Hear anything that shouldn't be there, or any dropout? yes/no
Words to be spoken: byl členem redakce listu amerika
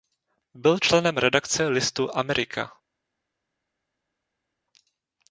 no